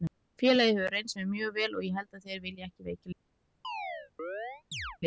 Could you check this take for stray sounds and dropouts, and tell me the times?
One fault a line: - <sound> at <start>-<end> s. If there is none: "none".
- chirp at 3.6-5.0 s